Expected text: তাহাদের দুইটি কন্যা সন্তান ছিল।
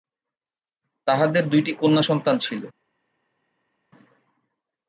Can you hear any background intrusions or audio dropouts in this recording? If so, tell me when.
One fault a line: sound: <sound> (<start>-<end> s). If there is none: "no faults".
no faults